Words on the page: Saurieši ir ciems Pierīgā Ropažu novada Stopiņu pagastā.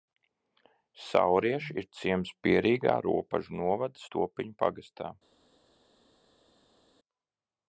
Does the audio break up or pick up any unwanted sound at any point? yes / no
no